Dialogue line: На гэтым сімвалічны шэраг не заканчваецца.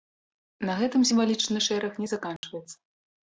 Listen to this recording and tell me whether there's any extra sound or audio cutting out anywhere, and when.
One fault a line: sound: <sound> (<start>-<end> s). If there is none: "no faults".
sound: dropout (2.4-2.4 s)